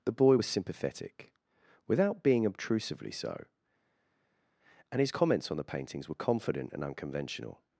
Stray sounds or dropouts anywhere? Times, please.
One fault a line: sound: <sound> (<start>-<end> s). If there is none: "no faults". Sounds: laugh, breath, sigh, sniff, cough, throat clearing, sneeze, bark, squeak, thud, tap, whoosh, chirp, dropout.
no faults